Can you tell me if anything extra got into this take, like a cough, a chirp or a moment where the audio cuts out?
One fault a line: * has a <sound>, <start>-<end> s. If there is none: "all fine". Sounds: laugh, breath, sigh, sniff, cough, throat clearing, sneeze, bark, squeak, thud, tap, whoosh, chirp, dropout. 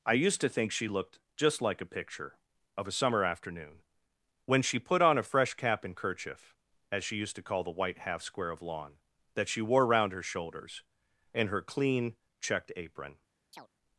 * has a chirp, 13.5-13.7 s